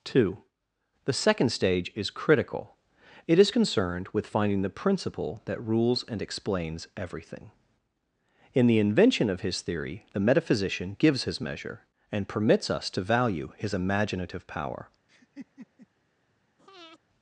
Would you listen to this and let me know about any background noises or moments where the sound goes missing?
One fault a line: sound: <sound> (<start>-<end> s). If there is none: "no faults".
sound: laugh (15.1-15.9 s)
sound: breath (16.6-17.0 s)